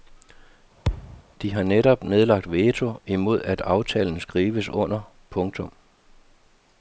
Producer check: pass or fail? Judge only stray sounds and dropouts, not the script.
fail